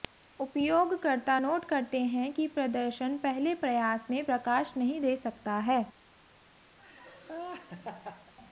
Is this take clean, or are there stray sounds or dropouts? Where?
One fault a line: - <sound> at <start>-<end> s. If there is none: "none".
- laugh at 6.8-8.3 s